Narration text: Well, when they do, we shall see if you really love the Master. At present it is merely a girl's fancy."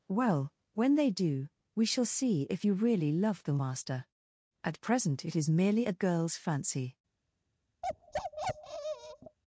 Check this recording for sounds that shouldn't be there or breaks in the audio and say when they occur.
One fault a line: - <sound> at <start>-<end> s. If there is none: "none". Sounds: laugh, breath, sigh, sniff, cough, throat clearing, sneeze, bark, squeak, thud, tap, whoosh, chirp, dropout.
- bark at 7.8-9.4 s